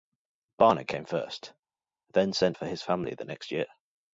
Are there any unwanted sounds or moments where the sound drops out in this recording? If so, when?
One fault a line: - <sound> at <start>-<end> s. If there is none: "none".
none